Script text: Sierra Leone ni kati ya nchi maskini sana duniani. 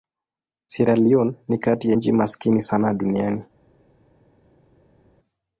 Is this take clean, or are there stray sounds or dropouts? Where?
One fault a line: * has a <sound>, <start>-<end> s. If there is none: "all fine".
all fine